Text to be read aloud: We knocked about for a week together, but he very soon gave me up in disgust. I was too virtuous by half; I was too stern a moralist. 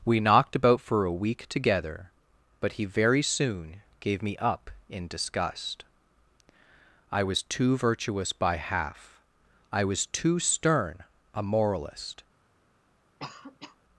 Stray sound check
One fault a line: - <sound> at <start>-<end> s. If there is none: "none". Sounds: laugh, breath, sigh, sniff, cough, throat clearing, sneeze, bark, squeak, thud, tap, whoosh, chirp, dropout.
- cough at 13.2-13.8 s